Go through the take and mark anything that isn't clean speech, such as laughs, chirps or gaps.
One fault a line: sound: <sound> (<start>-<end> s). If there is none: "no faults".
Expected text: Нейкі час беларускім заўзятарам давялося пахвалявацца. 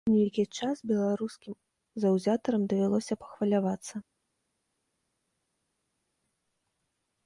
no faults